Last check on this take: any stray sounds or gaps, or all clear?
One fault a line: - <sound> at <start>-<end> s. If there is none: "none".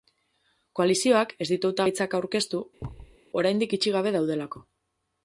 - thud at 2.8-3.2 s